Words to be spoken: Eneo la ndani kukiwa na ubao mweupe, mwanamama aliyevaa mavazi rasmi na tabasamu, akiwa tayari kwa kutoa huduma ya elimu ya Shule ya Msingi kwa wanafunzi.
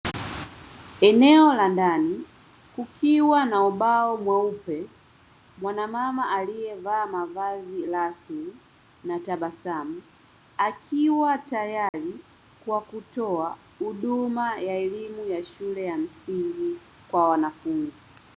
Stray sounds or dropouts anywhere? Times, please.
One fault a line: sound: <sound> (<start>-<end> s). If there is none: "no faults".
sound: dropout (11.9-11.9 s)